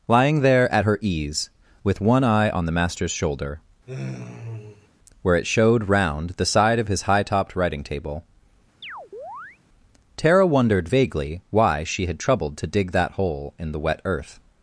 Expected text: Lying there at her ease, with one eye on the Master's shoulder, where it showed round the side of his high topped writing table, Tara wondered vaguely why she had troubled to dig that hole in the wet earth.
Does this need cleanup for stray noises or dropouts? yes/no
yes